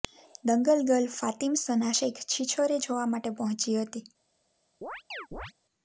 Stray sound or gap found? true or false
true